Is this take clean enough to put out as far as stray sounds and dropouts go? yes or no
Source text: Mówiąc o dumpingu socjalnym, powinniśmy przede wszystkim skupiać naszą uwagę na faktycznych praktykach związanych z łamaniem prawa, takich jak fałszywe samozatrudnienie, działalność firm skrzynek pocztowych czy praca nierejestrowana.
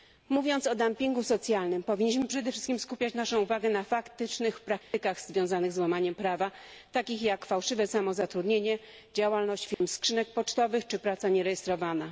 no